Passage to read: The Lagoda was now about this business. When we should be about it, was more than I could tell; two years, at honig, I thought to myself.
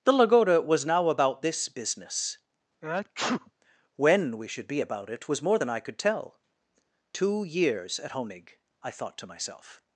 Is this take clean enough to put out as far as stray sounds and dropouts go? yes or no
no